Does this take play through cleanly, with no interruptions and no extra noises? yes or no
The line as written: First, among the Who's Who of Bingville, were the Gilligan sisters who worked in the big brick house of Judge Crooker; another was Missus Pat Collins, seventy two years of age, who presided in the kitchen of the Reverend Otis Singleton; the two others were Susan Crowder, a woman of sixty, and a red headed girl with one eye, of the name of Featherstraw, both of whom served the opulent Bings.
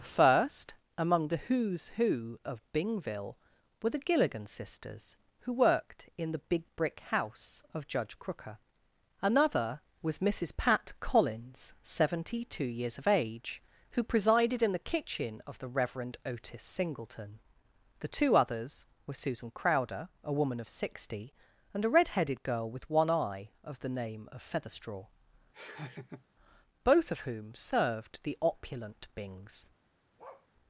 no